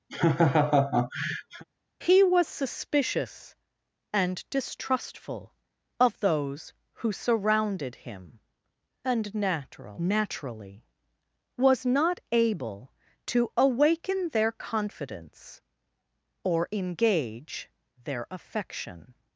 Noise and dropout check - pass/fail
fail